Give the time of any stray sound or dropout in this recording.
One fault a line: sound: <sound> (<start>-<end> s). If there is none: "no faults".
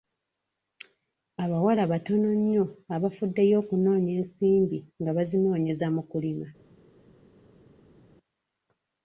no faults